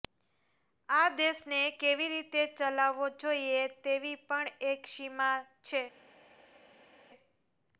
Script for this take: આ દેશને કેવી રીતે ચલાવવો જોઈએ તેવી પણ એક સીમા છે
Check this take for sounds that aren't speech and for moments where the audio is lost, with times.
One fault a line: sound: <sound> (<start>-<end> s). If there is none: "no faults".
no faults